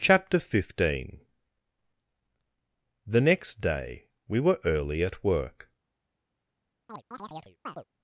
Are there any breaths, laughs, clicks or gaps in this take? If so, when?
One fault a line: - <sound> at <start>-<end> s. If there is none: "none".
- chirp at 6.9-7.8 s